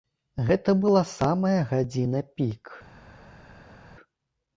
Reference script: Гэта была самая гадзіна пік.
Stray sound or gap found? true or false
false